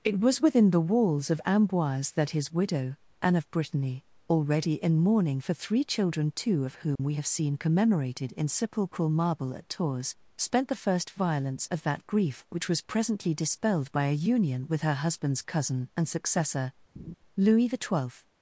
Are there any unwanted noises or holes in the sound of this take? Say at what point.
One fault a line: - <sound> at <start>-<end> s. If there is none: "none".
- dropout at 7.0-7.0 s
- laugh at 17.0-17.1 s